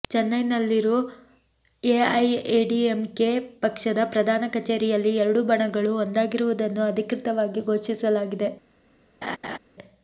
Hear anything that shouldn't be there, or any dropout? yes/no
yes